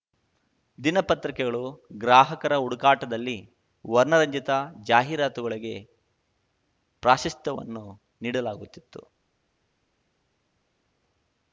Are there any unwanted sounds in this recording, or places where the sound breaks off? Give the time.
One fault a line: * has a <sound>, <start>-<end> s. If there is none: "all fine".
all fine